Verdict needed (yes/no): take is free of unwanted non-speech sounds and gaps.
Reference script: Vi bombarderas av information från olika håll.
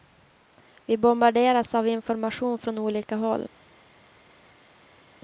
yes